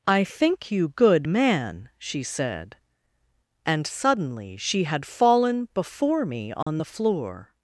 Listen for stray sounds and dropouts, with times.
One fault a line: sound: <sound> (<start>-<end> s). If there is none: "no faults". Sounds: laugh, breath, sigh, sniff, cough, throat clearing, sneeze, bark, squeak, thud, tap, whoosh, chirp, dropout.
sound: dropout (6.6-6.7 s)